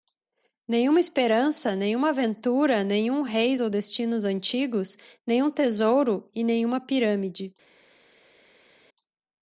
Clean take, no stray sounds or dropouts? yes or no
yes